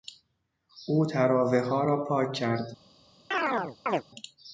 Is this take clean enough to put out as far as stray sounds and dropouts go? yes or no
no